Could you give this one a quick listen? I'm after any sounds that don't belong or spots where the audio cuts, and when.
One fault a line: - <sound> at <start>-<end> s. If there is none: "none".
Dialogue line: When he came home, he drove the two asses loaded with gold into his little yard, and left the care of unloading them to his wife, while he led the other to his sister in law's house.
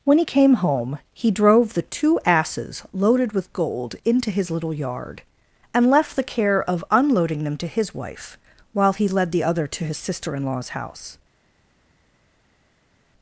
none